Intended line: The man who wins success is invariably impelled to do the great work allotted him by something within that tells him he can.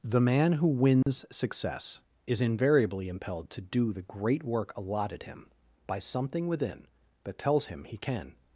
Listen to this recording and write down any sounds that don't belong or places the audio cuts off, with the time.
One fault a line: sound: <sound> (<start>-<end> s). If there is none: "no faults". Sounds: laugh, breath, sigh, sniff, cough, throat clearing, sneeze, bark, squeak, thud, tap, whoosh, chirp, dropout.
sound: dropout (1.0-1.1 s)